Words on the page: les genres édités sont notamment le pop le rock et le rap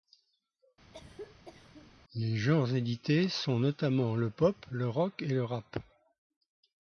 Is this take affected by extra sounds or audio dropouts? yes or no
yes